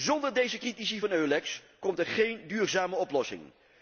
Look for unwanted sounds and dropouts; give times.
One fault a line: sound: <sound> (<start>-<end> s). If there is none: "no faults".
no faults